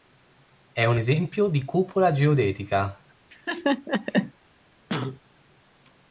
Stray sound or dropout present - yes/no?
yes